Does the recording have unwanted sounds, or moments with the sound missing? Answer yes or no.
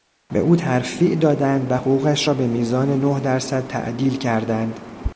no